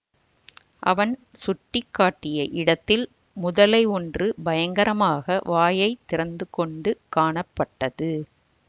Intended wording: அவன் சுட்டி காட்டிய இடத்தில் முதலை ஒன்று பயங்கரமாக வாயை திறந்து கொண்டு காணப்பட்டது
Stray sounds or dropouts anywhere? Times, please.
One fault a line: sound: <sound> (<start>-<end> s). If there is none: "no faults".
no faults